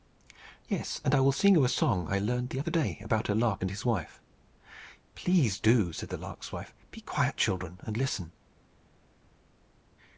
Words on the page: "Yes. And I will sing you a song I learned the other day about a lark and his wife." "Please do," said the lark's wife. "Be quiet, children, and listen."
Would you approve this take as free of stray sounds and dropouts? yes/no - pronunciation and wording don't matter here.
yes